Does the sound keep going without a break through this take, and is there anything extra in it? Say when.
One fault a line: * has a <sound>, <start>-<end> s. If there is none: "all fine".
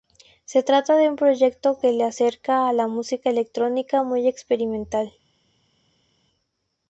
all fine